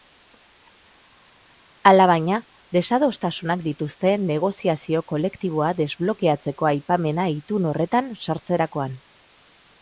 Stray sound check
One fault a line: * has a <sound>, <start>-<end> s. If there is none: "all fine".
all fine